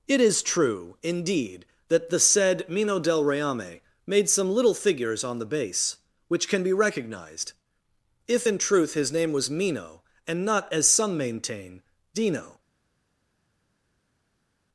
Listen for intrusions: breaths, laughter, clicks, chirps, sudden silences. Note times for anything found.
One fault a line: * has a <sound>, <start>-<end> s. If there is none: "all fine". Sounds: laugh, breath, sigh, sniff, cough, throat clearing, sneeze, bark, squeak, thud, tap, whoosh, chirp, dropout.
all fine